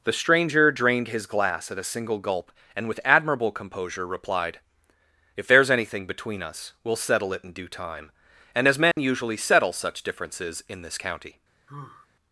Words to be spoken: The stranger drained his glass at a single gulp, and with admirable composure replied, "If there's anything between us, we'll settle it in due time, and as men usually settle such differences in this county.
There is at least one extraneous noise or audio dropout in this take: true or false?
true